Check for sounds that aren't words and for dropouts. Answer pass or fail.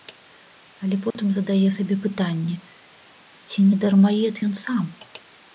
fail